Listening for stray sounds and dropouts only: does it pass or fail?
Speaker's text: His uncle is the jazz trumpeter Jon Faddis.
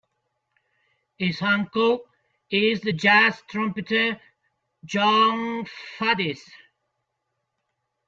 pass